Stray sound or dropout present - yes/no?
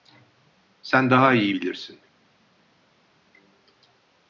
no